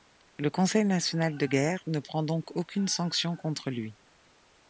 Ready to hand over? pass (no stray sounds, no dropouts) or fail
pass